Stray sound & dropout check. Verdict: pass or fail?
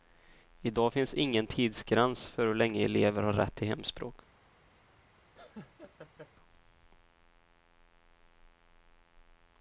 fail